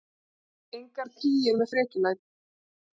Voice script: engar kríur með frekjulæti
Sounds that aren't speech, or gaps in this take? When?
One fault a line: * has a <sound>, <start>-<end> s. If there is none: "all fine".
all fine